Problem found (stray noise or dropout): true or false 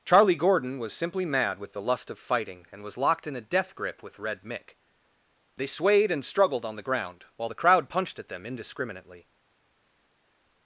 false